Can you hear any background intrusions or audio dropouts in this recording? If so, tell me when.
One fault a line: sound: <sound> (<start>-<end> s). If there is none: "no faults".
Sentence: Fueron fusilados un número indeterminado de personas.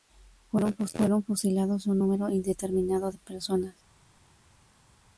no faults